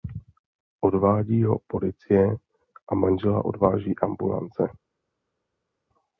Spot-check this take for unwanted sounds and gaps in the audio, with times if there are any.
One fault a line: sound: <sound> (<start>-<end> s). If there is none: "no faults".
no faults